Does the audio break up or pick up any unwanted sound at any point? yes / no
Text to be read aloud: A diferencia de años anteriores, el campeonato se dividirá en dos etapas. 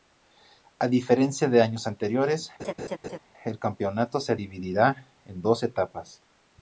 yes